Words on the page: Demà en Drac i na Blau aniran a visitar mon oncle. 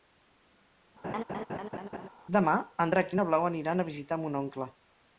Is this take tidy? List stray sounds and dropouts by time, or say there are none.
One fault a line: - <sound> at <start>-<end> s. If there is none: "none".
- laugh at 1.0-2.1 s